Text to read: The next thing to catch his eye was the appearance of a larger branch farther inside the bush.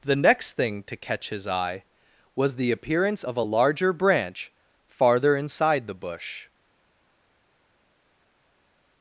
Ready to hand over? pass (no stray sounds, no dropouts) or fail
pass